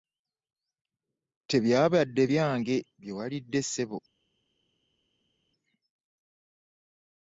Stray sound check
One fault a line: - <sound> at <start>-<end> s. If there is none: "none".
none